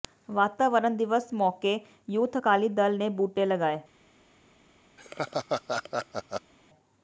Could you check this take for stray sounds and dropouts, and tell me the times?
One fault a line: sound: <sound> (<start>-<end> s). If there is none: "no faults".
sound: laugh (5.0-6.5 s)